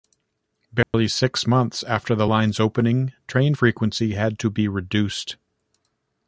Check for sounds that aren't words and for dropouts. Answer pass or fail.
fail